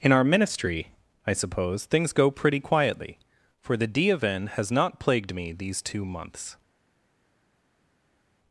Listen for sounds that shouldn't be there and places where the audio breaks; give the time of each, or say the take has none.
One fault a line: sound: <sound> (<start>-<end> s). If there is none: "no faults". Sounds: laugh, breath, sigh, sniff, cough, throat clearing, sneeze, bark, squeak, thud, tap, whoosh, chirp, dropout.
no faults